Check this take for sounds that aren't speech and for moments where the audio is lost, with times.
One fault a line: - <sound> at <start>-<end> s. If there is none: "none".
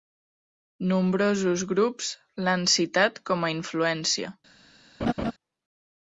- laugh at 5.0-5.3 s